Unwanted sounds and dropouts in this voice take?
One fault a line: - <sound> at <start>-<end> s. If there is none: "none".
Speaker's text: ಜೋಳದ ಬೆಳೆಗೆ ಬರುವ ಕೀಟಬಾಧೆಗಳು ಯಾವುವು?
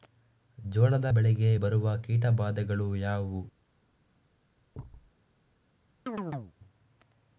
- thud at 4.7-5.1 s
- chirp at 6.1-6.5 s